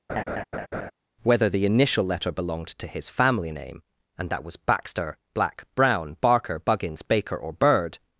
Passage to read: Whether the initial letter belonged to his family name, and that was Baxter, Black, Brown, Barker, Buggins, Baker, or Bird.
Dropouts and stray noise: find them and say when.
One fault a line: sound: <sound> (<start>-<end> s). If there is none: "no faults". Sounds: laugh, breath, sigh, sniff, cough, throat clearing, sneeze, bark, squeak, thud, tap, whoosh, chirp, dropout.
sound: laugh (0.1-0.9 s)